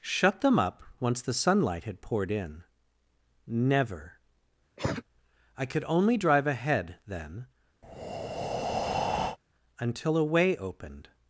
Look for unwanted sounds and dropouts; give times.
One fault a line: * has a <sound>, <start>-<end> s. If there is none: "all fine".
* has a cough, 4.8-5.0 s
* has a breath, 7.8-9.4 s